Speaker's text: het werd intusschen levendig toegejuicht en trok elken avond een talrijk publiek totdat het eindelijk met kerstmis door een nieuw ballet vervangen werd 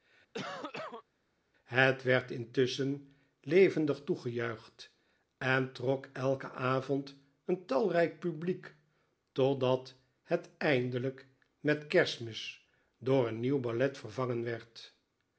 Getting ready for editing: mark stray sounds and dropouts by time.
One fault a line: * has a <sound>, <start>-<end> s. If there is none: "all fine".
* has a cough, 0.3-1.0 s